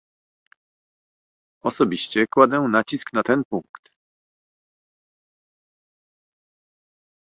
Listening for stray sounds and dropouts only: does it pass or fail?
pass